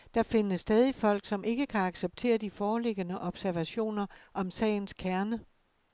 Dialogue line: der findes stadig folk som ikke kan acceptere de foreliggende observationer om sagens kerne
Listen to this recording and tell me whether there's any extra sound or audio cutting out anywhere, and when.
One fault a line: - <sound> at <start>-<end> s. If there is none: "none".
none